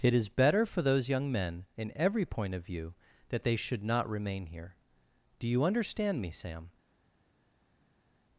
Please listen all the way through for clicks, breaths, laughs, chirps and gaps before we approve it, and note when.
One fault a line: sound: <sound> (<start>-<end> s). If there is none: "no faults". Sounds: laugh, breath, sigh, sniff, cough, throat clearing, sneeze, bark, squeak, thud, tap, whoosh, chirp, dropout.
no faults